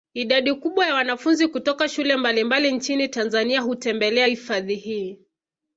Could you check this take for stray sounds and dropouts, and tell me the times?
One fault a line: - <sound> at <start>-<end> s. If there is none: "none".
none